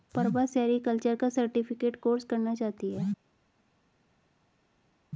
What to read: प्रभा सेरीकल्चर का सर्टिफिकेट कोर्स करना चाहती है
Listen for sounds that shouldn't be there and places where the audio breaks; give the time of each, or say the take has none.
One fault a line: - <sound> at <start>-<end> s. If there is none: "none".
none